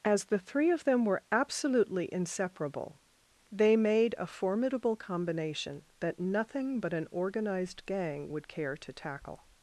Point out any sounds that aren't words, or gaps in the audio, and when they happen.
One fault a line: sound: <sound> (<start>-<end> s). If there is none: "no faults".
no faults